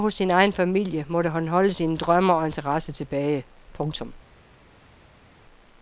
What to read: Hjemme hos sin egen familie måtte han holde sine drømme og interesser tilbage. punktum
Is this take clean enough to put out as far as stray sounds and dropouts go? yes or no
yes